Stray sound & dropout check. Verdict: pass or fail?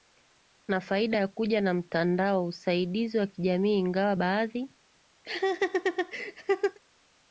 fail